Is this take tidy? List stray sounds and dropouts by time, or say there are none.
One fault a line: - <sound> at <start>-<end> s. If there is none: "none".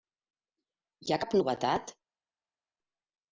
none